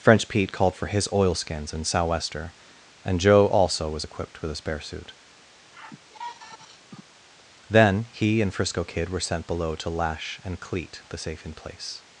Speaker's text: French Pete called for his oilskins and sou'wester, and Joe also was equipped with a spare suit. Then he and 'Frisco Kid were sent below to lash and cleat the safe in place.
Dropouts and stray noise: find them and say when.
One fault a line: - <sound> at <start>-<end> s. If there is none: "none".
- sigh at 5.7-7.0 s